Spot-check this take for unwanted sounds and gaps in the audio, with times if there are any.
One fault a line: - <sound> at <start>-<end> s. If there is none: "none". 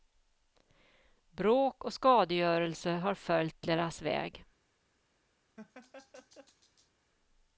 - laugh at 5.6-6.9 s